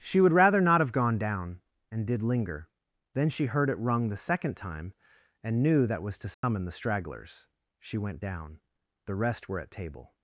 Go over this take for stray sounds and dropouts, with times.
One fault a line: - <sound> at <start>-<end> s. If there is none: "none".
- dropout at 6.3-6.4 s